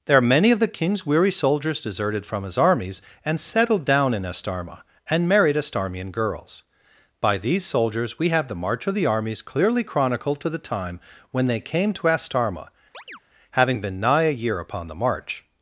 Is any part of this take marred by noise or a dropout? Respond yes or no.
yes